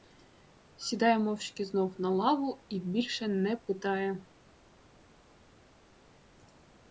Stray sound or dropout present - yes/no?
no